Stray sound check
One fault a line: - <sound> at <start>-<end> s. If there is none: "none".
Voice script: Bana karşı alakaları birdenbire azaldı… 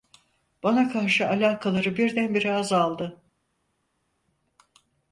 none